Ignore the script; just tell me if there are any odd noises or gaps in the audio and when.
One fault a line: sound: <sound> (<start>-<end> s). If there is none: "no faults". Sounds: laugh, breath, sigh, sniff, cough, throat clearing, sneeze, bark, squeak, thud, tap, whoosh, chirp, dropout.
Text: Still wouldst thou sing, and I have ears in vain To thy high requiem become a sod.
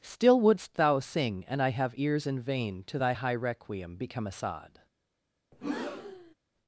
sound: breath (5.5-6.3 s)